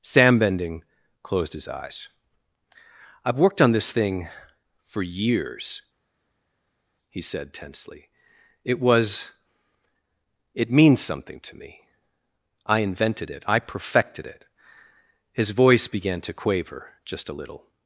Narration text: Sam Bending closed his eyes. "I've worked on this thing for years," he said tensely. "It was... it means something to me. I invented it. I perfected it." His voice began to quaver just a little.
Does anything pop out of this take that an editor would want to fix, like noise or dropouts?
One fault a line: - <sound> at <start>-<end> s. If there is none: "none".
none